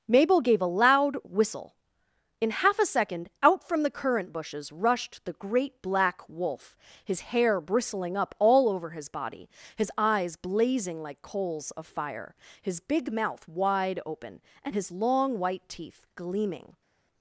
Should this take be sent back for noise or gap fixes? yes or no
no